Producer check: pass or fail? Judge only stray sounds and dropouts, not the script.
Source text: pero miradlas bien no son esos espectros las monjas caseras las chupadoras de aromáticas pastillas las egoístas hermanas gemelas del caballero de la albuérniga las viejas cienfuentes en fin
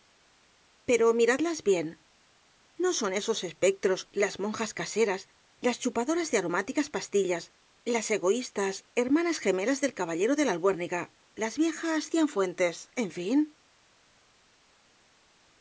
pass